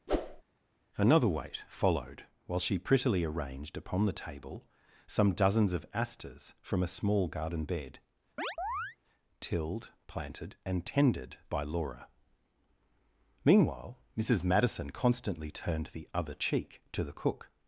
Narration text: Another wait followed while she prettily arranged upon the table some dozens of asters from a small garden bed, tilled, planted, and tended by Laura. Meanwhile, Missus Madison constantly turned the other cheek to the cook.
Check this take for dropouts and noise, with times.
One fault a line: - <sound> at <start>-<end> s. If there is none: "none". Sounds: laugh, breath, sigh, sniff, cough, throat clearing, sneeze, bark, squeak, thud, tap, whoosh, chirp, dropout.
- whoosh at 0.1-0.4 s
- chirp at 8.4-9.0 s